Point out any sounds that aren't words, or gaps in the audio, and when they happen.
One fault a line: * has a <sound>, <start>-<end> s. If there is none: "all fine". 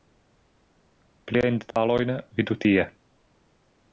* has a dropout, 1.7-1.8 s